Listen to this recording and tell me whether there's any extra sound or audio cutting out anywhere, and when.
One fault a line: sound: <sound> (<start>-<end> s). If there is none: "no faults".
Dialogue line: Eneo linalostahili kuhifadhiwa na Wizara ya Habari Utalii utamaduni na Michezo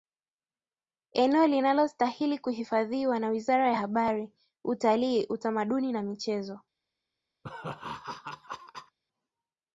sound: laugh (7.4-9.0 s)